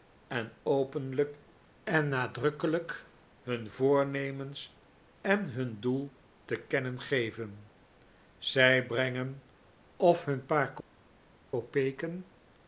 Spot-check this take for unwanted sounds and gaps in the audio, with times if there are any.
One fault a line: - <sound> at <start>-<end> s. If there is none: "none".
none